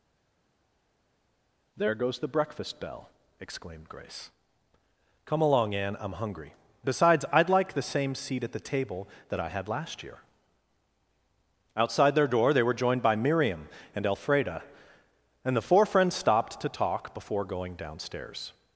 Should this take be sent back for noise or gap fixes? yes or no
no